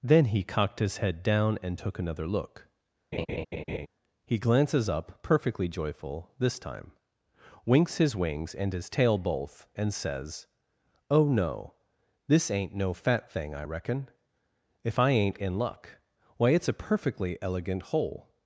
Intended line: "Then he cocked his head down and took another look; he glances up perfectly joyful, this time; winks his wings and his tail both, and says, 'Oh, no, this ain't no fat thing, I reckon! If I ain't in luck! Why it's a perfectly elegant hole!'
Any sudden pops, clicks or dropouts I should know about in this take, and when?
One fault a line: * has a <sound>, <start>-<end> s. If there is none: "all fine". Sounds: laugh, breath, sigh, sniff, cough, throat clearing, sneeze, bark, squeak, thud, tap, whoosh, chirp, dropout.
* has a laugh, 3.1-3.9 s